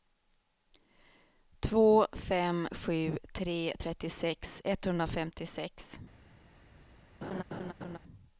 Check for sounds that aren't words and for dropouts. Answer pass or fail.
fail